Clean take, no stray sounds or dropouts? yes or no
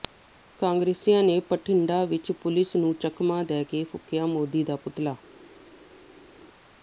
yes